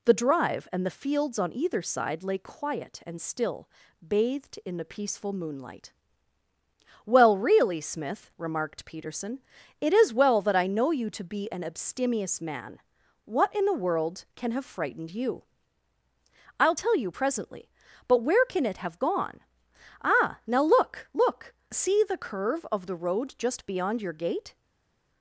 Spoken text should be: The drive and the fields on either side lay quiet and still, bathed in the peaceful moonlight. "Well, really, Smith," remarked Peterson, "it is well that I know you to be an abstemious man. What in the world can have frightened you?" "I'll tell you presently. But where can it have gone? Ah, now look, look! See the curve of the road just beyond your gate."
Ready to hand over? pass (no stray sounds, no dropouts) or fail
pass